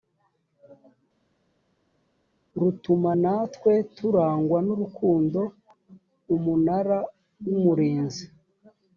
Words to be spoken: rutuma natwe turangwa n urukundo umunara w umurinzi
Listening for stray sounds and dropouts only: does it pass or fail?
pass